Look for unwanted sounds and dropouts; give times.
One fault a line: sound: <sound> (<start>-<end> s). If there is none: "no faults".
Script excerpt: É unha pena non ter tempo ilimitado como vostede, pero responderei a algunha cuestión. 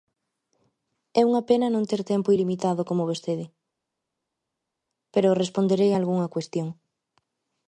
no faults